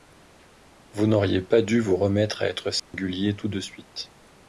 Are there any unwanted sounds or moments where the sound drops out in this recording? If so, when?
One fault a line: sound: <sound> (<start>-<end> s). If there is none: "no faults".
sound: dropout (2.8-2.9 s)